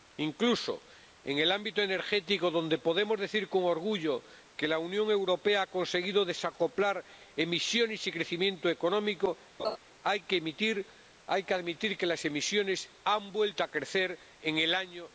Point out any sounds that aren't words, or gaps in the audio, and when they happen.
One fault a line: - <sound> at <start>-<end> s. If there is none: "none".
- laugh at 9.6-9.8 s